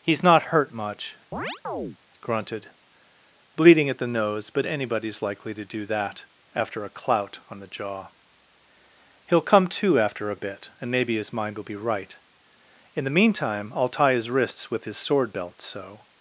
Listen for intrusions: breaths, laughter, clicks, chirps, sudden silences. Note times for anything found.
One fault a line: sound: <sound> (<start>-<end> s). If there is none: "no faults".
sound: chirp (1.3-2.0 s)